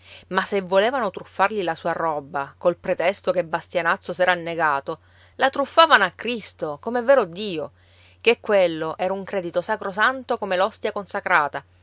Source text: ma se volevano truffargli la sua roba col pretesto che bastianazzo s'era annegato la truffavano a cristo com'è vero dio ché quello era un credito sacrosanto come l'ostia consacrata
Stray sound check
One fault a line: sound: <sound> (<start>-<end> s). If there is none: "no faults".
no faults